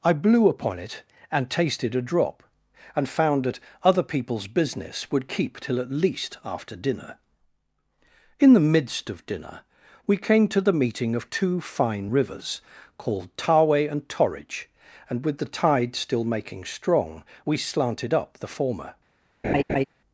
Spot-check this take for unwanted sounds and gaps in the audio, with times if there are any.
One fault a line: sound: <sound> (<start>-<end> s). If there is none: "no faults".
sound: laugh (19.4-19.9 s)